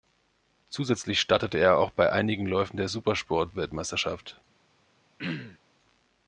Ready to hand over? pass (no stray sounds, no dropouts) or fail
fail